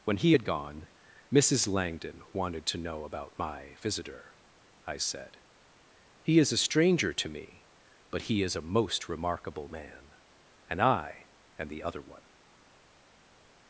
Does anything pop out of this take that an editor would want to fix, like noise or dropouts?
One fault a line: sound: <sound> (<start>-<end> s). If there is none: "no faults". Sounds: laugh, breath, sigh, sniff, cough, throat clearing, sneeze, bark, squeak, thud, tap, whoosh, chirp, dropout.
no faults